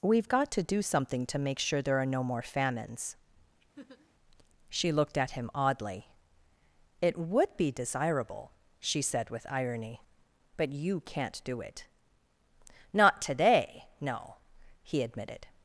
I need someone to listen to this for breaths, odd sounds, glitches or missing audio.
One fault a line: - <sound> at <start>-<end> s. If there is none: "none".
- laugh at 3.8-4.1 s